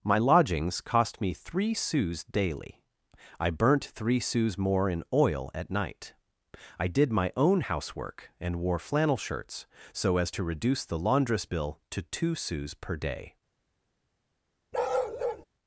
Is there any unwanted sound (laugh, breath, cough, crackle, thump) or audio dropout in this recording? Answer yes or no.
yes